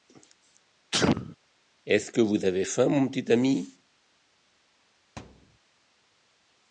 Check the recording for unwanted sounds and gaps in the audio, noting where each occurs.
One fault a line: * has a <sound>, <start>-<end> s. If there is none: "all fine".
* has a sneeze, 0.9-1.4 s
* has a thud, 5.2-5.6 s